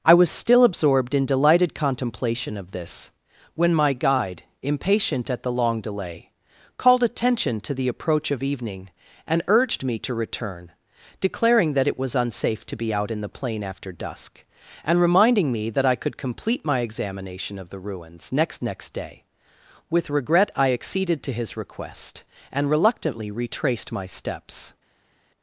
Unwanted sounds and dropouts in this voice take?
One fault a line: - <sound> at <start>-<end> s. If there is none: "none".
none